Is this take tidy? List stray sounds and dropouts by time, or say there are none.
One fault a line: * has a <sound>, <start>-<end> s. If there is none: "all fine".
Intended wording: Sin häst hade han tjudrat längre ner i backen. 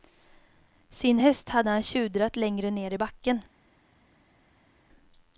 all fine